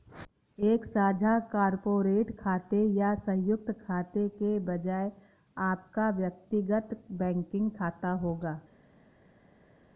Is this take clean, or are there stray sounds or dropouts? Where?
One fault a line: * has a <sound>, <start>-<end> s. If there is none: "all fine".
all fine